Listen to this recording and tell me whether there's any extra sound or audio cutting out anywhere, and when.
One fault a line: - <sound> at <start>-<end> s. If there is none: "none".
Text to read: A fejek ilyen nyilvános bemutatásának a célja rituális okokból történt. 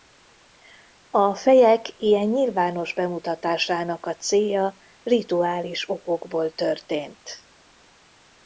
none